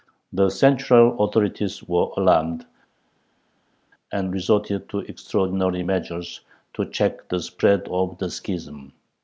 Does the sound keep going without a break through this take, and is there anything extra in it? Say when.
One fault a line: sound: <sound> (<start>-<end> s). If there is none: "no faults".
no faults